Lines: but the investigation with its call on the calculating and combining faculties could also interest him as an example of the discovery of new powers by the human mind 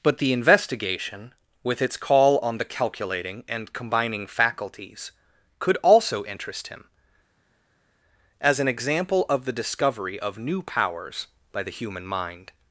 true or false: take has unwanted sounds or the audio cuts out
false